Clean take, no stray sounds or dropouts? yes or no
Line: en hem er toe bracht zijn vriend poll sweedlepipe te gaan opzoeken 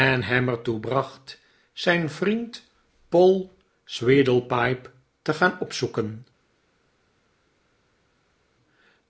yes